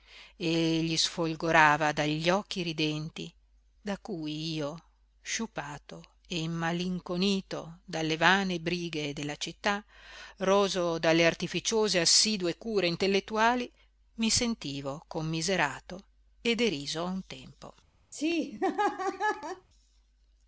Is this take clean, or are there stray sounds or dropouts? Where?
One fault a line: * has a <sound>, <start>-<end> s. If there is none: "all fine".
* has a laugh, 18.1-19.7 s